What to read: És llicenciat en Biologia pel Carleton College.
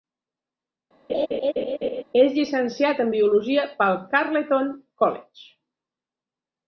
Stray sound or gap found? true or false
true